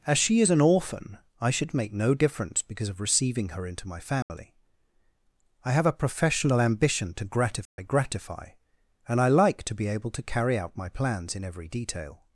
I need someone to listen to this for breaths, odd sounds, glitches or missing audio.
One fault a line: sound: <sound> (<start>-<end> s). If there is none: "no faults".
sound: dropout (4.2-4.3 s)
sound: dropout (7.7-7.8 s)